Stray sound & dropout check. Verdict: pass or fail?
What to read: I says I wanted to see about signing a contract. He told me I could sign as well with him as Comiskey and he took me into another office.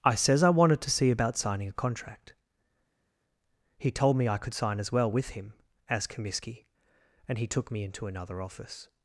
pass